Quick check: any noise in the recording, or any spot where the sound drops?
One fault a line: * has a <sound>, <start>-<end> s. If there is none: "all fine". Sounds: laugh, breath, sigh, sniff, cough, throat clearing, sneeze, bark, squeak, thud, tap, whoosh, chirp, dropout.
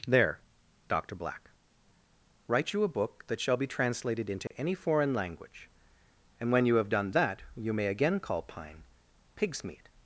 * has a dropout, 4.5-4.5 s